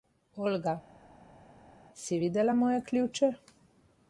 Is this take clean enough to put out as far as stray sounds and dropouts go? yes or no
yes